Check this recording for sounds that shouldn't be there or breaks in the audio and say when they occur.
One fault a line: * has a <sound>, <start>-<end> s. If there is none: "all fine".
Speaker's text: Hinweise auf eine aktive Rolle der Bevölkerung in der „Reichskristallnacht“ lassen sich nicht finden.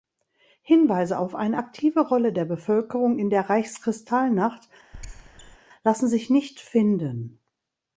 * has a squeak, 4.9-5.6 s